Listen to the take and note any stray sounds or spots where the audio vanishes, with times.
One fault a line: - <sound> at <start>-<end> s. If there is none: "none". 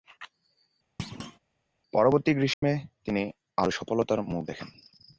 - thud at 1.0-1.4 s
- dropout at 2.5-2.6 s